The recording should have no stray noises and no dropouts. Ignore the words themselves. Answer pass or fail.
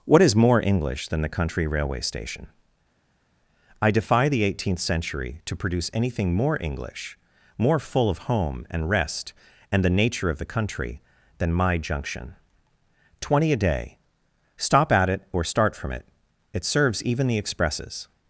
pass